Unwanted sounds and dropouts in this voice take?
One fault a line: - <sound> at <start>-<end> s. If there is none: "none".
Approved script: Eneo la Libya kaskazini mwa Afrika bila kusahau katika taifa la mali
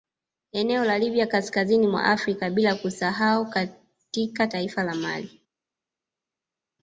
none